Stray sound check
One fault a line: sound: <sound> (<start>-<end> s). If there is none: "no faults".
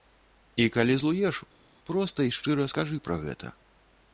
no faults